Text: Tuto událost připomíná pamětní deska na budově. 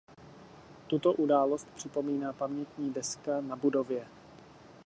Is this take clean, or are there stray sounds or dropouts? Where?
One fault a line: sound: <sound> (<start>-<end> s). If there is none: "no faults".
no faults